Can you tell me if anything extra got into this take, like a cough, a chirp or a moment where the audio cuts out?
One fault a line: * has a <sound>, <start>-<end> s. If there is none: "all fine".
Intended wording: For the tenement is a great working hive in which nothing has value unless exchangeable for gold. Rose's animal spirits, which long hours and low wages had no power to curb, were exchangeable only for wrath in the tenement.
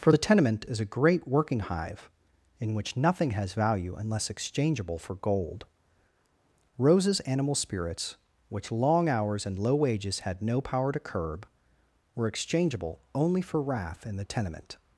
all fine